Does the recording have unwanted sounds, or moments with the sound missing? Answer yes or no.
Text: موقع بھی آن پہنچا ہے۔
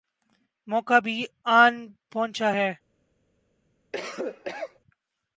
yes